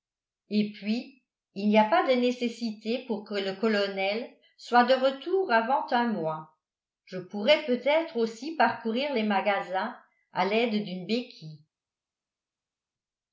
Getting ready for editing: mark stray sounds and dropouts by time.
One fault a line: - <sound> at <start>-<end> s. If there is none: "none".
none